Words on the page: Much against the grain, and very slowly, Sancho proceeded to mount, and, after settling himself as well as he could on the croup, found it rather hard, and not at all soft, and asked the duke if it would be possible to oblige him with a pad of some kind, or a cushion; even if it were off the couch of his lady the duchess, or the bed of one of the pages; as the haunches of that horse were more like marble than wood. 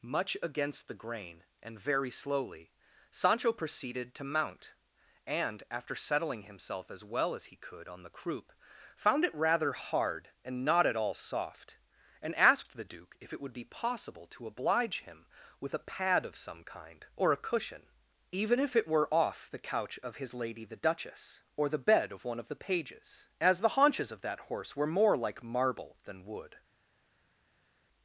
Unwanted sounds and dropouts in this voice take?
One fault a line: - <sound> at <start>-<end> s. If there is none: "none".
none